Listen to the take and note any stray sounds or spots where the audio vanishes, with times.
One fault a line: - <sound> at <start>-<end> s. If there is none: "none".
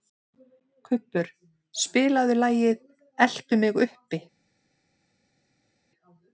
none